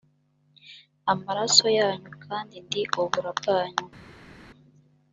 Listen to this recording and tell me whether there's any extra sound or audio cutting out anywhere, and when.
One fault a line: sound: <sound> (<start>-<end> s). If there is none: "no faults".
no faults